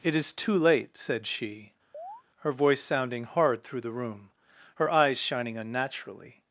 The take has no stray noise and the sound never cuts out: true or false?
false